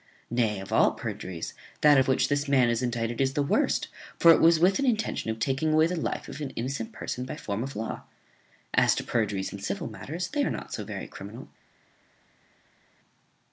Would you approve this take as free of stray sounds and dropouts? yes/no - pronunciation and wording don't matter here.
yes